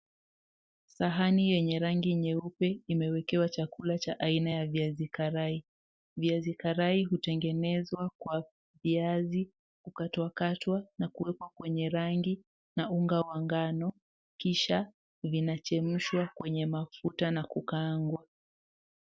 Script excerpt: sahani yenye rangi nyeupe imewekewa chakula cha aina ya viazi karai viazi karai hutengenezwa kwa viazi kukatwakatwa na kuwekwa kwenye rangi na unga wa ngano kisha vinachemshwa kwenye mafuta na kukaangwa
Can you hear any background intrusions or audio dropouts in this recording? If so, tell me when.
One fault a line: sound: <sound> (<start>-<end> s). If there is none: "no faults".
no faults